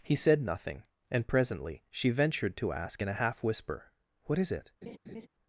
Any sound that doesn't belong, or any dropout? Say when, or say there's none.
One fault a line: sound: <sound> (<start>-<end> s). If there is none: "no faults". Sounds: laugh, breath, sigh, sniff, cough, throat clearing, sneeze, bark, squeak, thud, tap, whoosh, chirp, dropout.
sound: laugh (4.8-5.3 s)